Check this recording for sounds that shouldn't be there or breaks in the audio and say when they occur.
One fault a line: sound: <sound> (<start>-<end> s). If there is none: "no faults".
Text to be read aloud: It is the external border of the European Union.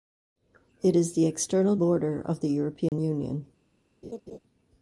sound: dropout (2.9-2.9 s)
sound: laugh (4.0-4.4 s)